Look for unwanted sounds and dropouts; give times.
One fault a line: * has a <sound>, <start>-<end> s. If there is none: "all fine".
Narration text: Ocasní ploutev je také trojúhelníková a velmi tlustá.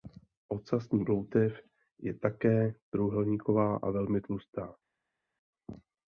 all fine